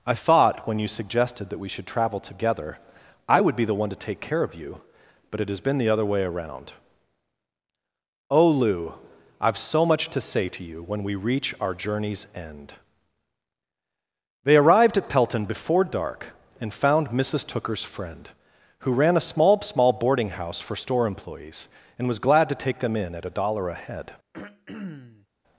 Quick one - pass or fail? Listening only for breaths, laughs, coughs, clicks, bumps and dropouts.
fail